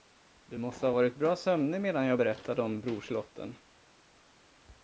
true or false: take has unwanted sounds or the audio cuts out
false